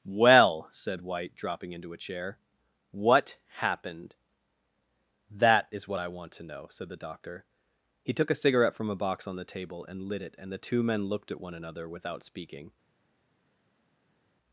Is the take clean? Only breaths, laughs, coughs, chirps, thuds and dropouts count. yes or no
yes